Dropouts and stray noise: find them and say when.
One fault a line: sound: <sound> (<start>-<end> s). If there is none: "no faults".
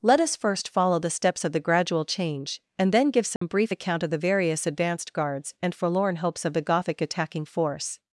sound: dropout (3.4-3.4 s)